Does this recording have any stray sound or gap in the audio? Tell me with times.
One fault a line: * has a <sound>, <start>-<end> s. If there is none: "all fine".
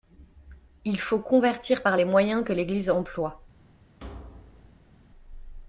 * has a thud, 4.0-4.9 s